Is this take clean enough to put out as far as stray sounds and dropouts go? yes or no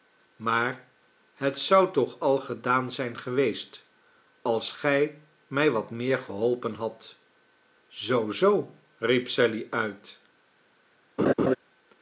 no